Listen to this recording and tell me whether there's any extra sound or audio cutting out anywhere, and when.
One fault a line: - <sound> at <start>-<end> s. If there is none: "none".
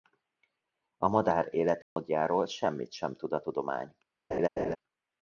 - dropout at 1.8-2.0 s
- laugh at 4.3-4.8 s